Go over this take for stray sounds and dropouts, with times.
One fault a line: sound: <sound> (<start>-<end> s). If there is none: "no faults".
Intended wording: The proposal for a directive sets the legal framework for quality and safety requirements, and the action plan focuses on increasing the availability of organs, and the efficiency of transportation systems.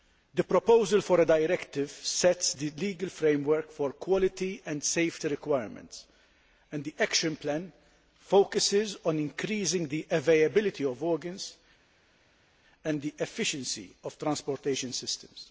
no faults